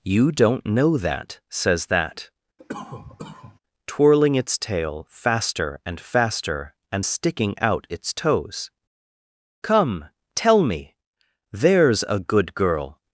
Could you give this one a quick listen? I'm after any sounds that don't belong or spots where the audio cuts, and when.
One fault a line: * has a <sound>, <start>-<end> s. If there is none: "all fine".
* has a cough, 2.6-3.6 s